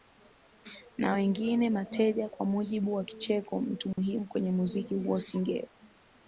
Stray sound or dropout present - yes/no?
yes